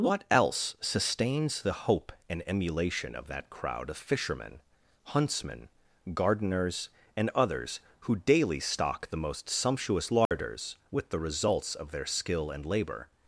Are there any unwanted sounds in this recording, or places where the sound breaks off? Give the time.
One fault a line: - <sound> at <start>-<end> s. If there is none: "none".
- dropout at 10.3-10.3 s